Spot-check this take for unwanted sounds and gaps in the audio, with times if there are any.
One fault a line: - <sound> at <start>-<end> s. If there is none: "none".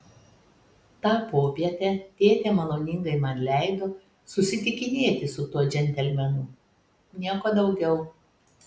none